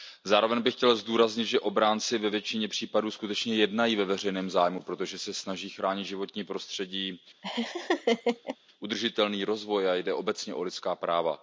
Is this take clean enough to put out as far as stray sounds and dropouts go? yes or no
no